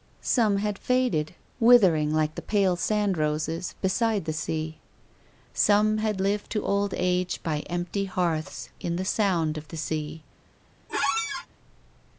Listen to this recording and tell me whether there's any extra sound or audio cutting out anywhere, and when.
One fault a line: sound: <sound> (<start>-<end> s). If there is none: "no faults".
sound: squeak (10.9-11.5 s)